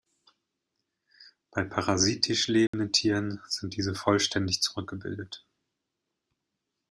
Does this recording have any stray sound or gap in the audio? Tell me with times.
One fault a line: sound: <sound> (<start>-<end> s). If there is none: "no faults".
sound: dropout (2.7-2.7 s)